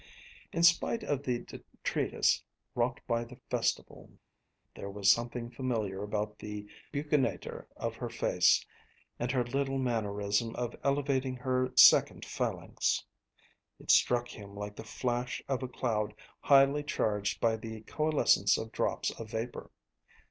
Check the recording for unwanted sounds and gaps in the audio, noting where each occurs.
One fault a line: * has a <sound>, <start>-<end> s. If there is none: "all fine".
all fine